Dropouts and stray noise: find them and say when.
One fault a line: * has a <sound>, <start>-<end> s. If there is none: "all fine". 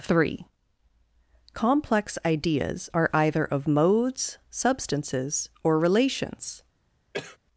* has a cough, 7.1-7.4 s